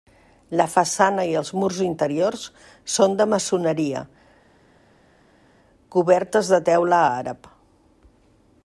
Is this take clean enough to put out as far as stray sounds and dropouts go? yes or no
yes